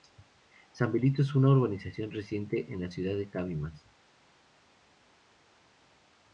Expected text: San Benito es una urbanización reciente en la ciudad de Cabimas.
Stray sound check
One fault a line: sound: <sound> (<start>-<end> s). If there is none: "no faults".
no faults